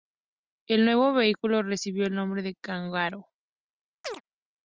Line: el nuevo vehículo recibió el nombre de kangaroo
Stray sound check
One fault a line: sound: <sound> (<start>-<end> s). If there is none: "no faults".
sound: chirp (4.0-4.2 s)